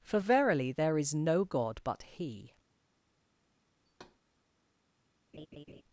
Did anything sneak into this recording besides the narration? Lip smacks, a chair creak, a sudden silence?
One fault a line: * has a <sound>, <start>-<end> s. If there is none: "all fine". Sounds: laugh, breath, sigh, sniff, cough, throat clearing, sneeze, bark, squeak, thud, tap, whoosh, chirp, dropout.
* has a thud, 3.9-4.2 s
* has a laugh, 5.3-5.8 s